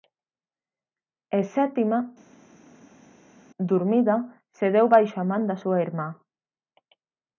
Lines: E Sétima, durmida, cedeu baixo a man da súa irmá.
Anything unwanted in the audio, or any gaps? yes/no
no